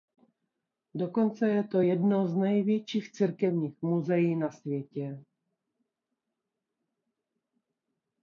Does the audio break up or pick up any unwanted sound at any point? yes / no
no